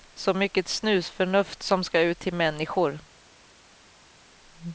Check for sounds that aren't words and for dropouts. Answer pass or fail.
pass